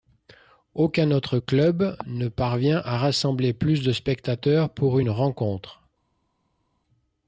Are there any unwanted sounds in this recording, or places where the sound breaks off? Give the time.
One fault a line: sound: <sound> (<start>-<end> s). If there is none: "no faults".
no faults